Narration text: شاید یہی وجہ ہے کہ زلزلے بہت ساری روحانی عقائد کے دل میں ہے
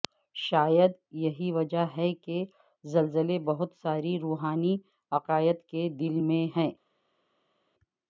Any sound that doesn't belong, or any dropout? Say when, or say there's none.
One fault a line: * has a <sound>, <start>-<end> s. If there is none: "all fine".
all fine